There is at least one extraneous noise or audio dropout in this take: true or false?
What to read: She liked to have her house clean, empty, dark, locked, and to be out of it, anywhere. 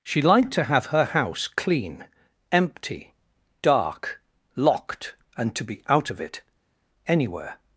false